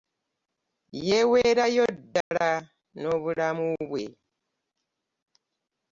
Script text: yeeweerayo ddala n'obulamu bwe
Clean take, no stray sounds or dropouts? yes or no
no